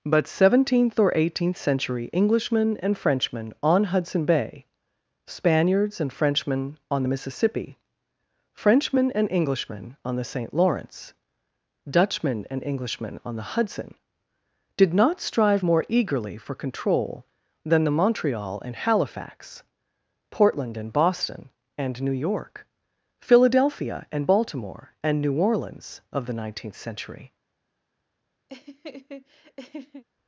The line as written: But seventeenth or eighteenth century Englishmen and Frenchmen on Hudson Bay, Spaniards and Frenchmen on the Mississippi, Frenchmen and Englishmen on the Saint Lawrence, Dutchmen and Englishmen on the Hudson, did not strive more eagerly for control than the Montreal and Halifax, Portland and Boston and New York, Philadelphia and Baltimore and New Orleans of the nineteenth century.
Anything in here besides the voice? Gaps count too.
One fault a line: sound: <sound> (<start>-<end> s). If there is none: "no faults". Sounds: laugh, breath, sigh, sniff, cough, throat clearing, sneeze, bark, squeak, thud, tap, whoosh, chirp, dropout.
sound: laugh (28.5-30.0 s)